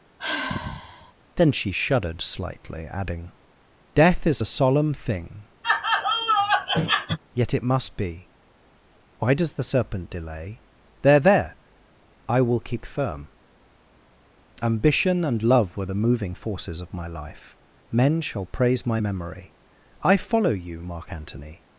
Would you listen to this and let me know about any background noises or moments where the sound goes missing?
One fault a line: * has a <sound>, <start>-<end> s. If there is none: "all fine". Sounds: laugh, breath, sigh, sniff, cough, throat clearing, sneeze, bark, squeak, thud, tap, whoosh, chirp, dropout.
* has a sigh, 0.2-1.1 s
* has a laugh, 5.6-7.2 s